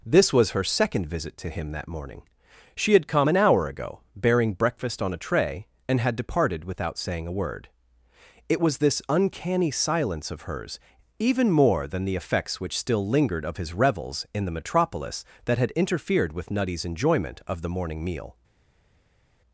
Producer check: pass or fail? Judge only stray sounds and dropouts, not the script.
pass